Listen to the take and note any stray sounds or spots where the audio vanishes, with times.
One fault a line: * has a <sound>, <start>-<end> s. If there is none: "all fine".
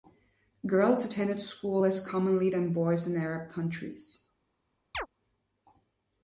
* has a chirp, 4.9-5.1 s